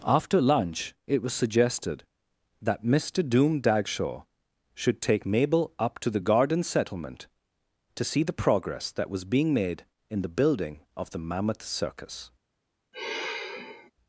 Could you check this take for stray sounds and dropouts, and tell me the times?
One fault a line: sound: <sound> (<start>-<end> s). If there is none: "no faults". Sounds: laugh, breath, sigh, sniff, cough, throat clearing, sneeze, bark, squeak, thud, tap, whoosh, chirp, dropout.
sound: sigh (12.9-13.9 s)